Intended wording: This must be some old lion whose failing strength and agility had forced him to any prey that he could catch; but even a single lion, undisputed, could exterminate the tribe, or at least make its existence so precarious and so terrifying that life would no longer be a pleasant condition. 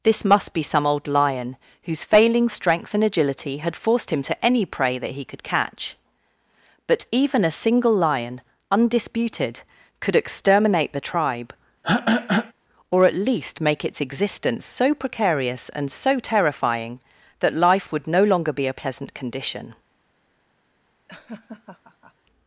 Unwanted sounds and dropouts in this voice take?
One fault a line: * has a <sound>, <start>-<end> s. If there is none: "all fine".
* has a throat clearing, 11.8-12.5 s
* has a laugh, 21.1-22.1 s